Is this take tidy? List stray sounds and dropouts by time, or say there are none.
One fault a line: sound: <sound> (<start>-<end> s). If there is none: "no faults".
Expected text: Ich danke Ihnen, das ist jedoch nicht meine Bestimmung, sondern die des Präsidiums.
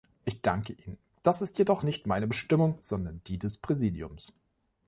no faults